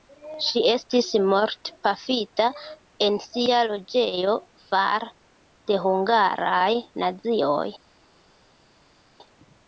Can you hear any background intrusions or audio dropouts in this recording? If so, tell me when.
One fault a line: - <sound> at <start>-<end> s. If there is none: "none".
none